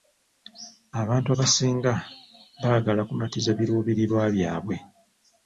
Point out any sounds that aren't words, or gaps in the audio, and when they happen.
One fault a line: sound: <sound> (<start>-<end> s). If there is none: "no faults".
no faults